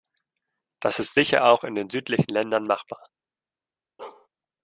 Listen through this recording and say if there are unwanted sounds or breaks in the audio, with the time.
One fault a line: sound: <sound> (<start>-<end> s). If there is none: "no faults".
sound: bark (4.0-4.3 s)